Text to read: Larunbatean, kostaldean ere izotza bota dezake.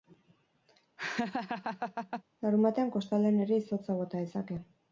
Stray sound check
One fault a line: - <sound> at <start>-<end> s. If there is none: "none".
- laugh at 1.0-2.2 s